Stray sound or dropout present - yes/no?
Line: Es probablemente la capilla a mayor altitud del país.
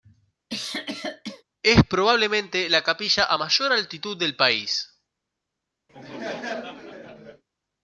yes